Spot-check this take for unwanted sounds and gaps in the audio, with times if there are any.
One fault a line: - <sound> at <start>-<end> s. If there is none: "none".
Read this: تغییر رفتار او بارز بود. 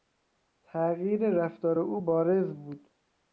none